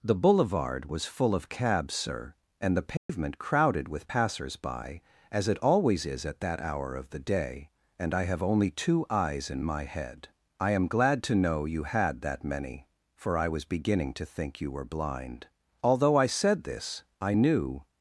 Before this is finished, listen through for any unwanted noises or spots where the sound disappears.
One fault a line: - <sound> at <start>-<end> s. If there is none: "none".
- dropout at 3.0-3.1 s